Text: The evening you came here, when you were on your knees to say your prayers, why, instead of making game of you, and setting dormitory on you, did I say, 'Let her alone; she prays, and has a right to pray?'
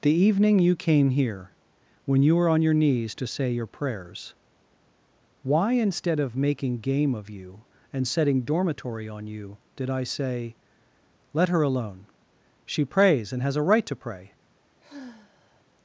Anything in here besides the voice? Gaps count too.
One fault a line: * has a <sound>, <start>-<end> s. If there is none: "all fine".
* has a sigh, 14.8-15.7 s